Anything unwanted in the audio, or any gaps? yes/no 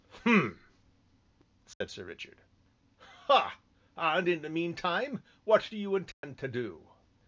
yes